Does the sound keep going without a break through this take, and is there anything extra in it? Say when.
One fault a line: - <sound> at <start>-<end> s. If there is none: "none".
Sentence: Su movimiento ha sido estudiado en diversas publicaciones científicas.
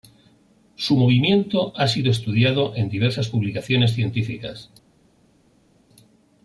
none